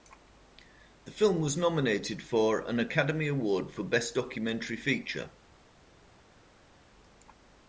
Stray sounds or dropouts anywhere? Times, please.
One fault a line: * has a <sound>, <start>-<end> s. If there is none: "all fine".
all fine